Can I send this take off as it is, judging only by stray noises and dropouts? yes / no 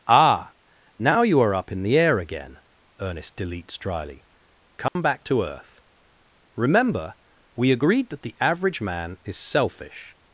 no